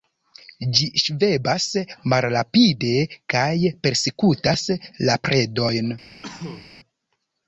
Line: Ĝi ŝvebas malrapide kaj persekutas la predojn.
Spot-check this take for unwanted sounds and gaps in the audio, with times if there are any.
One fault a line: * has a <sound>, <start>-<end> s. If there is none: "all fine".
* has a cough, 6.2-6.7 s